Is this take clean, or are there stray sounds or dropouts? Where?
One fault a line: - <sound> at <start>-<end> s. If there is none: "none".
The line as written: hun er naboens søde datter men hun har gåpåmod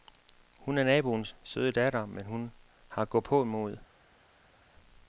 none